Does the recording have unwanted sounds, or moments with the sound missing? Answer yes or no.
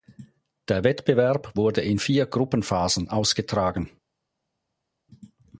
no